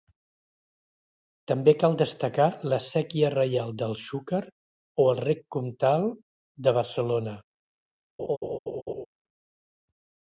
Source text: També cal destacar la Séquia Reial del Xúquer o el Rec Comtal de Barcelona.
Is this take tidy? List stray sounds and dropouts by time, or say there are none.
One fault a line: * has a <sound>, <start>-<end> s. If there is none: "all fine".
* has a laugh, 8.2-9.1 s